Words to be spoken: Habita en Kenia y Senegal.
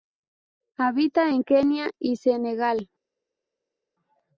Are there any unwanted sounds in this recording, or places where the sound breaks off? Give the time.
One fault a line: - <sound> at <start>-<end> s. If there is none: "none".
none